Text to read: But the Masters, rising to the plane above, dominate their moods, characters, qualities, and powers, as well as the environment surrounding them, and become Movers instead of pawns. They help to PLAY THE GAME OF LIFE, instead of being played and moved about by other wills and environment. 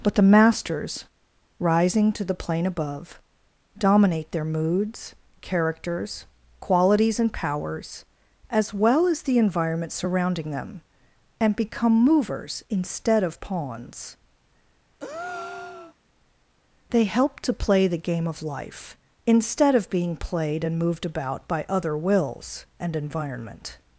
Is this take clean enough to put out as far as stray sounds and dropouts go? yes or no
no